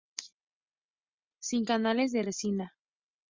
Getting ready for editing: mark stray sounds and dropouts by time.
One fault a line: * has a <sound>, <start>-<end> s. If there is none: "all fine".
all fine